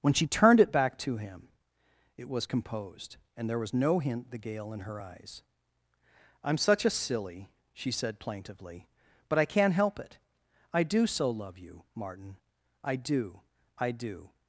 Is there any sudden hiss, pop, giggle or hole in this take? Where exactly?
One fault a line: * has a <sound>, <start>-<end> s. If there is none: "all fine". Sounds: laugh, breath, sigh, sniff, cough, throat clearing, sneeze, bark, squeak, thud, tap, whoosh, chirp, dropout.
all fine